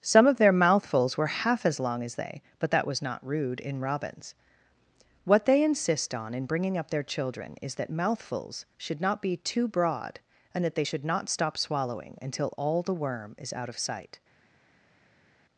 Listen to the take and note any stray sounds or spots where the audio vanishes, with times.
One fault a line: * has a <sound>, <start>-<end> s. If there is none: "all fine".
all fine